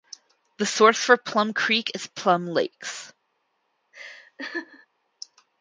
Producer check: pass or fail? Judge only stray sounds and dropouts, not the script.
fail